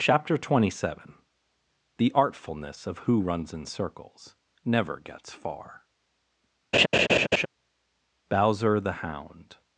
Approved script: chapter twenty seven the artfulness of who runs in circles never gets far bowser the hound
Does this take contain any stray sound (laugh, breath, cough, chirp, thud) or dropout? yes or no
yes